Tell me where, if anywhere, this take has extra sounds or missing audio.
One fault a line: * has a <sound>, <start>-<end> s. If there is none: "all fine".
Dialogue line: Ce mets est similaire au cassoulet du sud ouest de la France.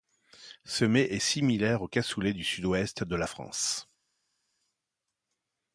all fine